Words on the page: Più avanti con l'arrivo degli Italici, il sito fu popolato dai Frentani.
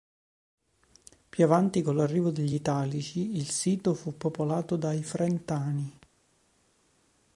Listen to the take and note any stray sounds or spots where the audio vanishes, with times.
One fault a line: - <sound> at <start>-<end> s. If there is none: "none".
none